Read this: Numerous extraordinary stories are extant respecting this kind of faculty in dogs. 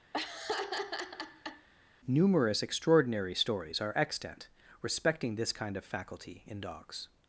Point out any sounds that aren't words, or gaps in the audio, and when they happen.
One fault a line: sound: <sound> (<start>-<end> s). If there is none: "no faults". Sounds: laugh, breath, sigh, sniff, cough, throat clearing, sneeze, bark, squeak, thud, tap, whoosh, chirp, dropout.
sound: laugh (0.1-1.7 s)